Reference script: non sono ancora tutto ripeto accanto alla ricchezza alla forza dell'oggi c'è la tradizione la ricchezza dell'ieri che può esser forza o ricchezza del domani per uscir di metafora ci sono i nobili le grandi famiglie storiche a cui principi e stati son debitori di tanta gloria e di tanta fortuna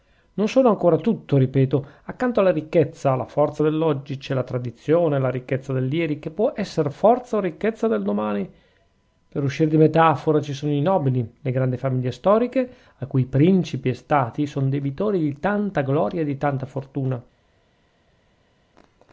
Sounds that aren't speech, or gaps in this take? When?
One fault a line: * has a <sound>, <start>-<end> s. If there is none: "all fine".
all fine